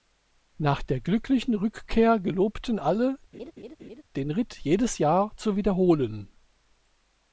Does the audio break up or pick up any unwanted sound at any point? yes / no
yes